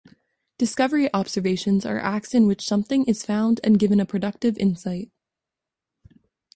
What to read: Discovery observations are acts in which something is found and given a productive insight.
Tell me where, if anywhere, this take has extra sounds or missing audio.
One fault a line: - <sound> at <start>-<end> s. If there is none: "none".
none